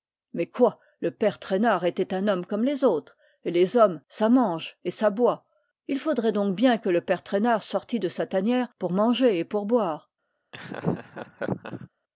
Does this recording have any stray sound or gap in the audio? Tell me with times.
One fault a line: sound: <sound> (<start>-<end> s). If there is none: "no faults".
sound: laugh (10.5-11.9 s)